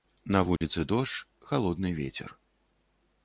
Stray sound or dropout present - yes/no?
yes